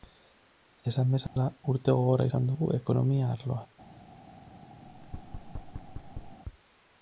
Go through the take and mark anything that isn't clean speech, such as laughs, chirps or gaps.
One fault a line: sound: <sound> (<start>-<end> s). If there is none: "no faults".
sound: dropout (1.3-1.4 s)
sound: thud (4.9-6.4 s)